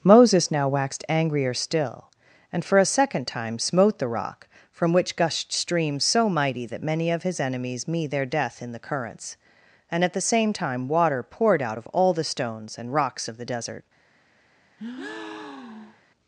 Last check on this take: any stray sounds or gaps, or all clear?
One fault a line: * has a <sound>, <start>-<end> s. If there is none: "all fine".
* has a breath, 14.8-16.0 s